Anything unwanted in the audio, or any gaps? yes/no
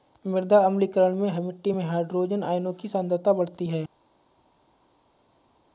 no